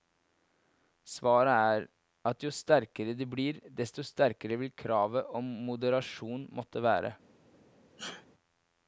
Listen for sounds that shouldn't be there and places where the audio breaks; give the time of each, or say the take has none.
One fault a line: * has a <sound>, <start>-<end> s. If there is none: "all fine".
* has a sneeze, 8.0-8.3 s